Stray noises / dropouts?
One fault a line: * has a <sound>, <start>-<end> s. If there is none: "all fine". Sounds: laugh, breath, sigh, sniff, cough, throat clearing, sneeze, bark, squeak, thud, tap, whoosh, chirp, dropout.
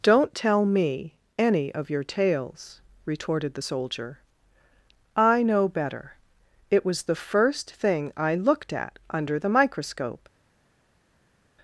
all fine